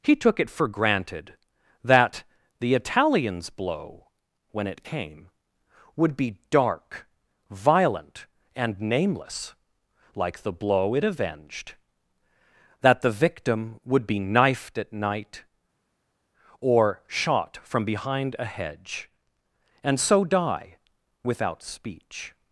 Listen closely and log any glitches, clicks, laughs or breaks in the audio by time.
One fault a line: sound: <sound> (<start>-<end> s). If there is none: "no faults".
no faults